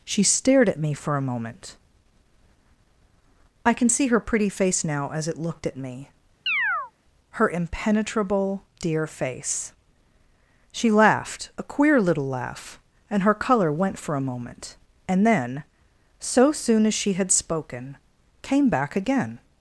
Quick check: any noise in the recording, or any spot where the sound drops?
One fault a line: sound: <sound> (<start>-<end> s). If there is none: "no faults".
sound: chirp (6.5-6.9 s)